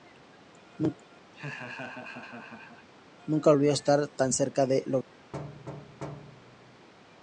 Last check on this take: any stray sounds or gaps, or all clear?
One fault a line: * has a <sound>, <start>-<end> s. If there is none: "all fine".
* has a laugh, 1.3-2.9 s
* has a thud, 5.3-6.9 s